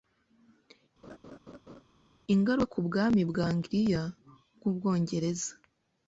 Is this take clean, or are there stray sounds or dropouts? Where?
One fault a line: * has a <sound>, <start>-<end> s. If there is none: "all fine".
* has a laugh, 1.0-1.8 s